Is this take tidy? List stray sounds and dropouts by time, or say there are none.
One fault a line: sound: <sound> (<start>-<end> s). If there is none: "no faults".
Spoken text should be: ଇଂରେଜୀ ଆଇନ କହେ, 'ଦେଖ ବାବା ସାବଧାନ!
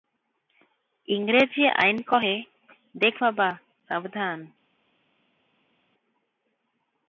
no faults